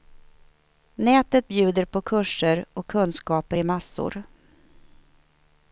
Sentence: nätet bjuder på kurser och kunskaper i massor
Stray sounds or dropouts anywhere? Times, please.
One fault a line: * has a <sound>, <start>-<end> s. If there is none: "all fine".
all fine